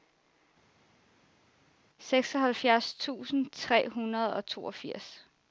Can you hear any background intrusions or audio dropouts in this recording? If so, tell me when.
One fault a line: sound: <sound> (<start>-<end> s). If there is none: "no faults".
no faults